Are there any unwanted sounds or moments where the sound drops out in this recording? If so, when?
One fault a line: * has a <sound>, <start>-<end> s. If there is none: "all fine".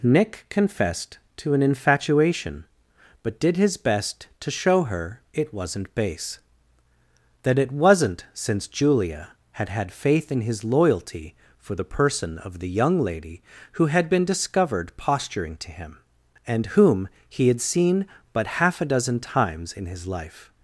all fine